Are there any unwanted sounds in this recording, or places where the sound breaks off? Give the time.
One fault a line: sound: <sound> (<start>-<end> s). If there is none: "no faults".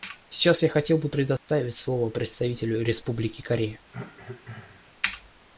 sound: dropout (1.4-1.5 s)
sound: cough (3.9-4.9 s)